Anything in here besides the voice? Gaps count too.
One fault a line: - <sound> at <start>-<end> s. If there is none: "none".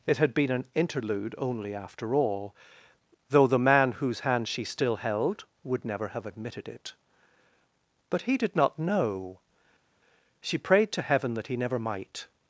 none